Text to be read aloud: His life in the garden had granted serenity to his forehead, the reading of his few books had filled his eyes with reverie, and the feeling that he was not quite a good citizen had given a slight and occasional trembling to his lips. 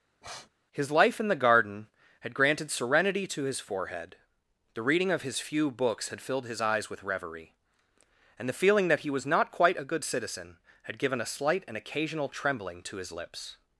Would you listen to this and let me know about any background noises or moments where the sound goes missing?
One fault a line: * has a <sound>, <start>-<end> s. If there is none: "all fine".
* has a sniff, 0.2-0.5 s